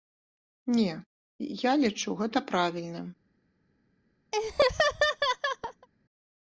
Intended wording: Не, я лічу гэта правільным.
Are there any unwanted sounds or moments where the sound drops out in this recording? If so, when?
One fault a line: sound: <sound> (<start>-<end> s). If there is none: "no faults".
sound: laugh (4.3-5.9 s)